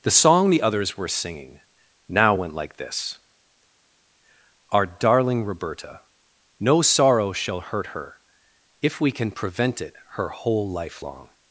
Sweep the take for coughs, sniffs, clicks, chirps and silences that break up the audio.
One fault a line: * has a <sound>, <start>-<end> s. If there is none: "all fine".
all fine